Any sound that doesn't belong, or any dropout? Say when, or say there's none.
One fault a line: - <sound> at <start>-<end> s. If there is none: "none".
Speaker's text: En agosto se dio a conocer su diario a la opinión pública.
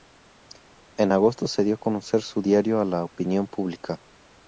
none